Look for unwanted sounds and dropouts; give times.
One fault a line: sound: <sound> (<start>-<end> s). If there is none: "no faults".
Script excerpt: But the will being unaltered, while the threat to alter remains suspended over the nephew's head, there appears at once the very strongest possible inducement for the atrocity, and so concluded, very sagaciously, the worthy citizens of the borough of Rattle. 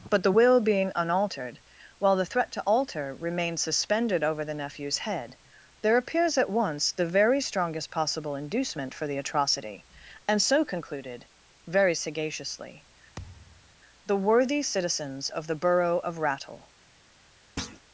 sound: thud (13.2-13.8 s)
sound: thud (17.6-17.8 s)